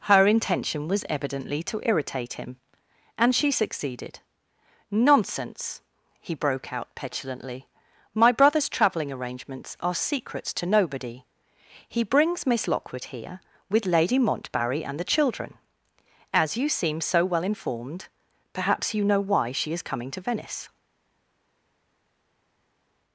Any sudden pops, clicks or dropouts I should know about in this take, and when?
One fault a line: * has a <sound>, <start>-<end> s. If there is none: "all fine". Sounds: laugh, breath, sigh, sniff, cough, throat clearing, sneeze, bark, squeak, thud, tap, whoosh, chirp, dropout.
all fine